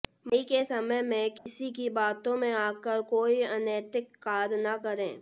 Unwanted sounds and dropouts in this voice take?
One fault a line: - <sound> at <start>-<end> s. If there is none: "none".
- dropout at 1.4-1.5 s